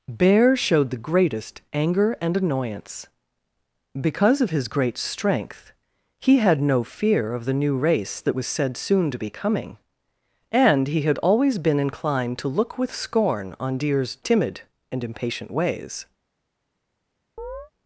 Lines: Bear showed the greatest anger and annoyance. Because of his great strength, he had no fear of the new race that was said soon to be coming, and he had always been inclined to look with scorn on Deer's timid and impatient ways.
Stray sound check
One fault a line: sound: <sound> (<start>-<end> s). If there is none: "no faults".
sound: chirp (17.4-17.7 s)